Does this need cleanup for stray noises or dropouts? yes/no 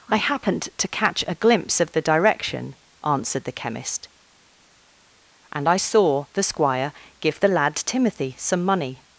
no